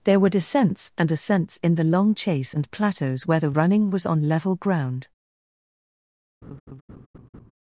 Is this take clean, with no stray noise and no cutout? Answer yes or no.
no